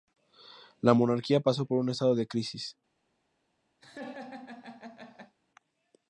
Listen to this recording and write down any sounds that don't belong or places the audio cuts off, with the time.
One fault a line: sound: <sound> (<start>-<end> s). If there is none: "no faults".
sound: laugh (3.8-5.4 s)